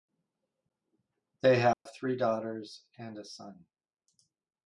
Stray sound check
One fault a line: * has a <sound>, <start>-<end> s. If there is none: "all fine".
* has a dropout, 1.7-1.9 s